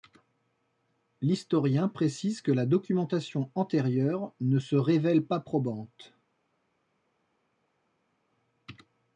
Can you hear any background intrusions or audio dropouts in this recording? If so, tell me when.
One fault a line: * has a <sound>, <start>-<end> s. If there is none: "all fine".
all fine